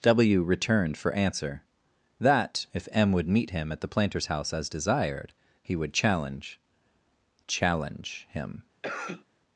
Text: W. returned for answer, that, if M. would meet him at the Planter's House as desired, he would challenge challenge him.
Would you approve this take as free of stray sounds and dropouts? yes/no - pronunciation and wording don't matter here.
no